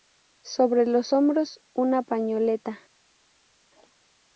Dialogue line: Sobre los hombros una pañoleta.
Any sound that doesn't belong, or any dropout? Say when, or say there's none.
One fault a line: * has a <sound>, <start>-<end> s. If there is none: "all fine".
all fine